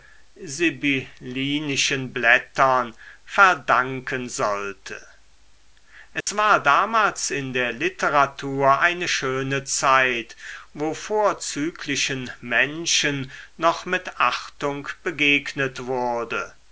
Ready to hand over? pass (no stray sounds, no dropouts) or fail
fail